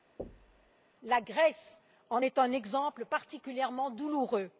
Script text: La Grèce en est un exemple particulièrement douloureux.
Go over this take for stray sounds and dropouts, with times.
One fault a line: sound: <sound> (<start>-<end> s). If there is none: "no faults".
sound: thud (0.2-0.7 s)